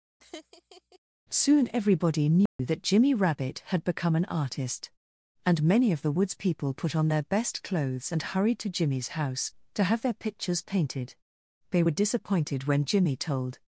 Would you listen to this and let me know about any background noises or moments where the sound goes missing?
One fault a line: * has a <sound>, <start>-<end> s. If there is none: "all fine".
* has a laugh, 0.2-1.0 s
* has a dropout, 2.5-2.6 s